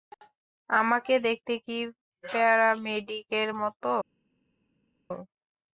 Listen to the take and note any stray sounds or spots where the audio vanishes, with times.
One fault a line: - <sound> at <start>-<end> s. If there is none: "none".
none